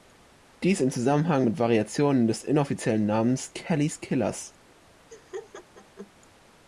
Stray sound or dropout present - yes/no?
yes